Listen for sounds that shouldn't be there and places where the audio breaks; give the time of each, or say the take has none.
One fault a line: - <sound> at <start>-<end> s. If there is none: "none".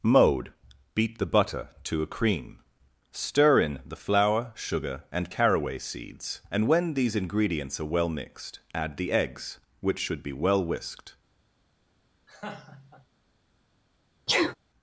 - laugh at 12.3-13.1 s
- sneeze at 14.3-14.6 s